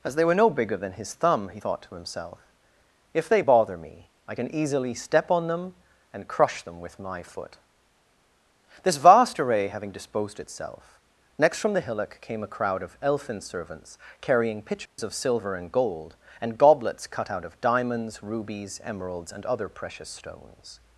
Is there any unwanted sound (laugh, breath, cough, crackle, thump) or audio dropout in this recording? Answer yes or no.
yes